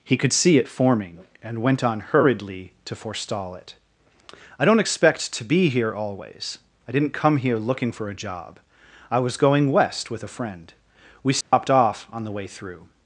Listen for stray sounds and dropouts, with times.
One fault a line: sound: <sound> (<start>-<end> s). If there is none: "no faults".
sound: dropout (11.4-11.5 s)